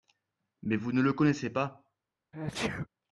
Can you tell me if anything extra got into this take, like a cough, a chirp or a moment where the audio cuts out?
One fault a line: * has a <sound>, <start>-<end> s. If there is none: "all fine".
* has a sneeze, 2.3-2.9 s